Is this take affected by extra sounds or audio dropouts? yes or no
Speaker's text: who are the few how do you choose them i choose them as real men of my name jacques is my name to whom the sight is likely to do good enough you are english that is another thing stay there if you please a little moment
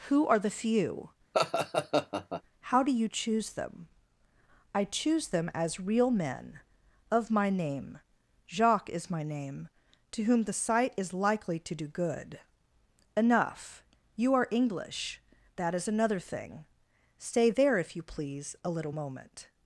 yes